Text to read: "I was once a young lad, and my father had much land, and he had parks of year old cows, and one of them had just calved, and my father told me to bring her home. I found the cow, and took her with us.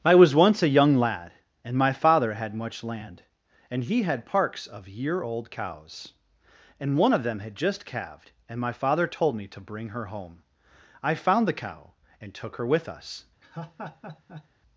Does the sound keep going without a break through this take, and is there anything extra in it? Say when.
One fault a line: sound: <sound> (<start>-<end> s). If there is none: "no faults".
sound: laugh (13.4-14.5 s)